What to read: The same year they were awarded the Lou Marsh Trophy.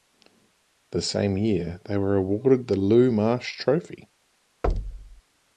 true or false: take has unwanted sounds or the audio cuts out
true